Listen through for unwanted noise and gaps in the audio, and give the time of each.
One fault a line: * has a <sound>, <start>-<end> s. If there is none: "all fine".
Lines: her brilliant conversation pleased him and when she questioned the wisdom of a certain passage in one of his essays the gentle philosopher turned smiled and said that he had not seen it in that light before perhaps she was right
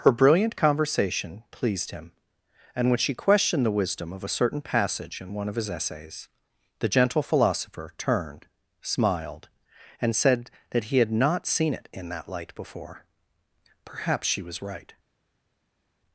all fine